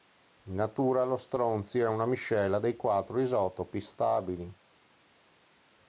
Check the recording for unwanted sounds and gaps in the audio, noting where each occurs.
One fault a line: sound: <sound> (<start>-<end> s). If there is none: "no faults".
no faults